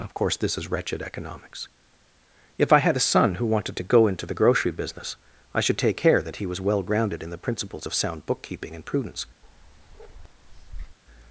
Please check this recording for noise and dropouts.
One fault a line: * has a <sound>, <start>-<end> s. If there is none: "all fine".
* has a bark, 9.4-11.0 s